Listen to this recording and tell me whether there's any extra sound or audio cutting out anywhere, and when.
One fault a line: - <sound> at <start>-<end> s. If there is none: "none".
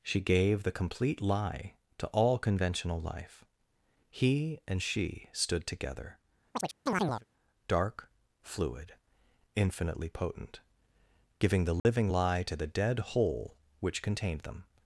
- chirp at 6.5-7.3 s
- dropout at 11.8-11.9 s